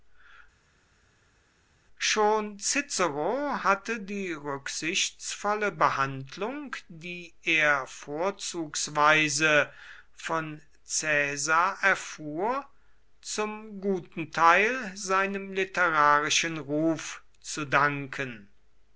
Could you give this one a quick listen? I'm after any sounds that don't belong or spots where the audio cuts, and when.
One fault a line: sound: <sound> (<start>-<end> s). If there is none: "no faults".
no faults